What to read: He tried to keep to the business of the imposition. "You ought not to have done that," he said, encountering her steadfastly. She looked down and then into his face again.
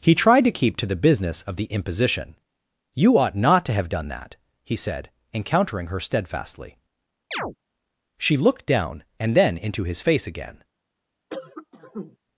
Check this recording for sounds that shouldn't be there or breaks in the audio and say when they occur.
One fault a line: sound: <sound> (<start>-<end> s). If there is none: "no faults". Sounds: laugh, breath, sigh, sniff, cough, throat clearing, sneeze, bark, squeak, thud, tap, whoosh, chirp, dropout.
sound: chirp (7.3-7.6 s)
sound: cough (11.3-12.2 s)